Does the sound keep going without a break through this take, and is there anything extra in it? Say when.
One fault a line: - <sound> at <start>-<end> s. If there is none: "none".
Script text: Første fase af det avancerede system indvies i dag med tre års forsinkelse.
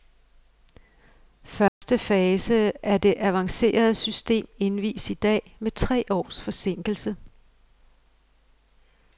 - dropout at 1.7-1.8 s